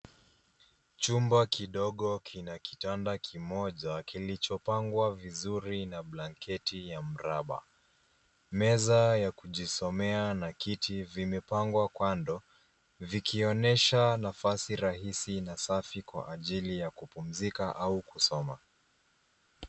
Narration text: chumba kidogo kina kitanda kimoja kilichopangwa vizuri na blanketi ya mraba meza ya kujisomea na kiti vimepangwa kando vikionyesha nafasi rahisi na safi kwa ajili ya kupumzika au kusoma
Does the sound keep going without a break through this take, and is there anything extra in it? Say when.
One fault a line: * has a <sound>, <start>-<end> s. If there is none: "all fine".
all fine